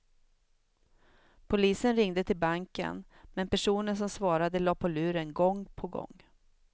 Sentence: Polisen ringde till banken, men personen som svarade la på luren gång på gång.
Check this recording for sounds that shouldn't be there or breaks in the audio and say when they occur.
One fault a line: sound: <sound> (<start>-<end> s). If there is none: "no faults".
no faults